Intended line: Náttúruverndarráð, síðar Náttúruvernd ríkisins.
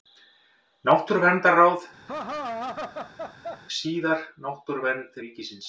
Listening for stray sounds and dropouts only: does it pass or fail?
fail